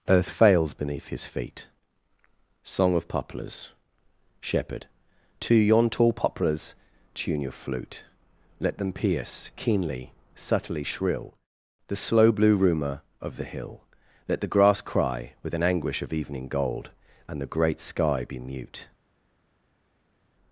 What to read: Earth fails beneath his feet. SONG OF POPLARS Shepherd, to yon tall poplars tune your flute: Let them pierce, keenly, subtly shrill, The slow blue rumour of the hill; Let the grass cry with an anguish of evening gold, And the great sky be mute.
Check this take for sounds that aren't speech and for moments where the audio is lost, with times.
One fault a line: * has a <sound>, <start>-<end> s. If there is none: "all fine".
all fine